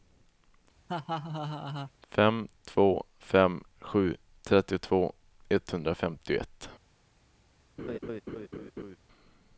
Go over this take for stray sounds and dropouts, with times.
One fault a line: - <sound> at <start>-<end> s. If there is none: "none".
- laugh at 0.9-1.9 s
- laugh at 7.8-9.0 s